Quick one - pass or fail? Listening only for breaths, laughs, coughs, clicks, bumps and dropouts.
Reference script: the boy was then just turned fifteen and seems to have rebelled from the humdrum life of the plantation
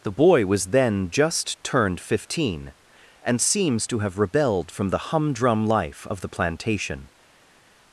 pass